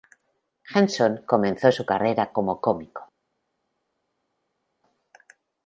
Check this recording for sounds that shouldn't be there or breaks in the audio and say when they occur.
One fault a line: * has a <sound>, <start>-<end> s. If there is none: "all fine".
all fine